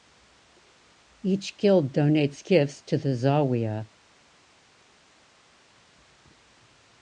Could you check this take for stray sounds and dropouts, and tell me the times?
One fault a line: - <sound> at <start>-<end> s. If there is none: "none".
none